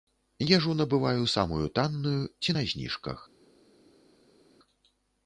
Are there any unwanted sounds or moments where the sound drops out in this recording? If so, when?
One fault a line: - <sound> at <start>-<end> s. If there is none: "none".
none